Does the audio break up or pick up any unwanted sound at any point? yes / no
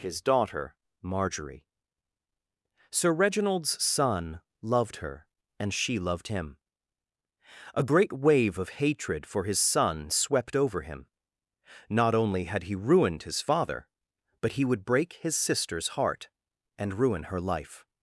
no